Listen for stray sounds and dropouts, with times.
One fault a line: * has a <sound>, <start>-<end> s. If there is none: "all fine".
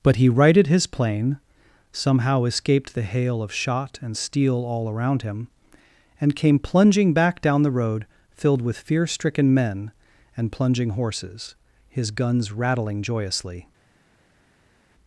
all fine